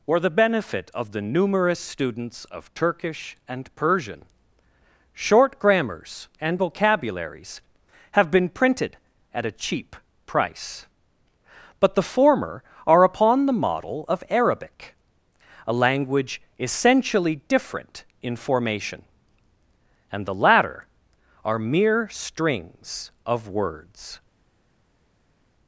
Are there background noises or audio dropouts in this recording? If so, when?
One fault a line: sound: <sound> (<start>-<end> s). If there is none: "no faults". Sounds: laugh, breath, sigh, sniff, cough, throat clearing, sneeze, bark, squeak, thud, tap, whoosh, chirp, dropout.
no faults